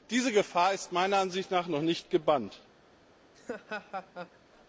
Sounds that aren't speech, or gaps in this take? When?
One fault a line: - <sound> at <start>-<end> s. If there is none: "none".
- laugh at 3.3-4.4 s